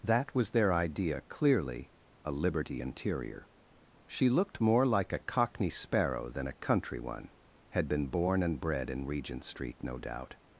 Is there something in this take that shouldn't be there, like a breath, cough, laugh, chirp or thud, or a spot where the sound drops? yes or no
no